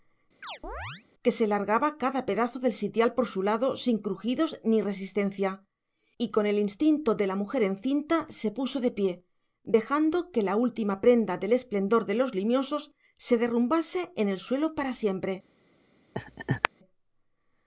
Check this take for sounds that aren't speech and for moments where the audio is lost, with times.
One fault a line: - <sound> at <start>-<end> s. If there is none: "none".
- chirp at 0.4-1.0 s
- laugh at 16.1-16.7 s